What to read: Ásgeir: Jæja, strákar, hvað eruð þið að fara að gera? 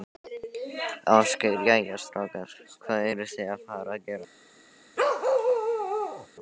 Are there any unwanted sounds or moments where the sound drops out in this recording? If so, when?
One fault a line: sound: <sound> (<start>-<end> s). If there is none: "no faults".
sound: bark (5.0-6.3 s)